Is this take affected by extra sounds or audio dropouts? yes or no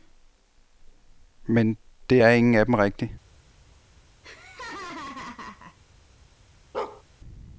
yes